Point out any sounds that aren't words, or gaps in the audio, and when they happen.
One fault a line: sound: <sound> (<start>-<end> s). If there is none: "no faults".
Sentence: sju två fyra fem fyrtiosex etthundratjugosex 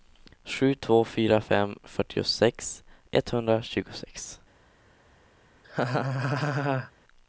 sound: laugh (5.6-6.9 s)